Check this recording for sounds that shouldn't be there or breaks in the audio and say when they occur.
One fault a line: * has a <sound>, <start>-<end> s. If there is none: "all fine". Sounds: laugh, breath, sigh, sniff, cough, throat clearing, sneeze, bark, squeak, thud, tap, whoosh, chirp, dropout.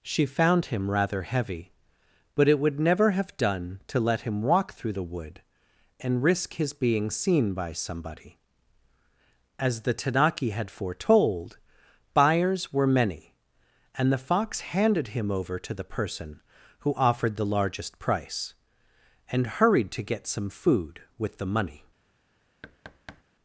* has a thud, 22.6-23.2 s